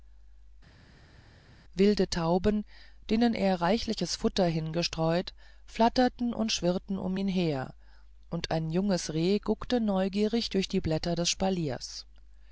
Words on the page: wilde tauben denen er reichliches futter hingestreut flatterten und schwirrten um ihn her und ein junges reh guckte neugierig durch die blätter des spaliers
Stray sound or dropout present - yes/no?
no